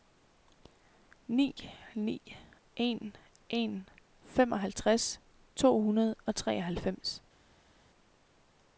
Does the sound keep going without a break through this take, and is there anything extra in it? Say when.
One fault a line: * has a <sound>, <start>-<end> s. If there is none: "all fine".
all fine